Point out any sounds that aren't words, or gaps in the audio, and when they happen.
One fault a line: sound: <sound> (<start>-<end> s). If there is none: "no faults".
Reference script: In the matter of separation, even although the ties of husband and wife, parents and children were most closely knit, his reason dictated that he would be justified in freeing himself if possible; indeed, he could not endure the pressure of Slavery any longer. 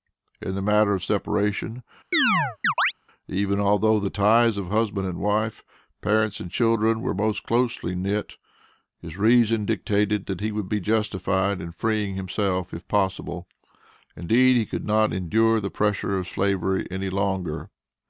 sound: chirp (2.1-2.9 s)